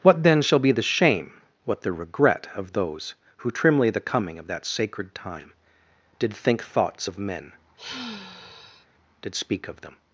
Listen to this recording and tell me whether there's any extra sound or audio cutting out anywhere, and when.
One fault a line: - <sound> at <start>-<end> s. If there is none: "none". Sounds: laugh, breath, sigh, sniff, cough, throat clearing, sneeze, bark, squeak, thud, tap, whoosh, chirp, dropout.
- sigh at 7.8-8.9 s